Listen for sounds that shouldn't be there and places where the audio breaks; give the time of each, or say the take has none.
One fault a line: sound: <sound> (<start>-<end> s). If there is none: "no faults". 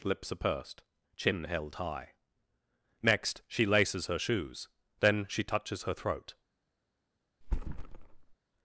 sound: thud (7.4-8.3 s)